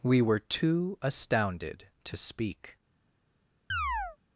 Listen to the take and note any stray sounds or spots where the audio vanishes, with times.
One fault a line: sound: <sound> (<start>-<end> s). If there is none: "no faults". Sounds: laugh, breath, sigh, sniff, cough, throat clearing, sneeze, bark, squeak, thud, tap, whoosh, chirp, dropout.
sound: chirp (3.7-4.2 s)